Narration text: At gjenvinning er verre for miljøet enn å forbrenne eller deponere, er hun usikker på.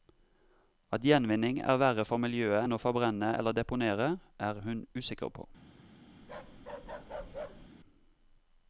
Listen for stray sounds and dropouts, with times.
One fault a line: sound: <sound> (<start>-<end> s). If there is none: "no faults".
sound: bark (6.2-7.7 s)